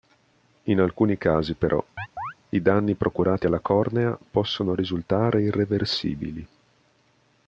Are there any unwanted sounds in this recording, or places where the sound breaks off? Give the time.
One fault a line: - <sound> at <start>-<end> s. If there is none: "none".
- chirp at 2.0-2.3 s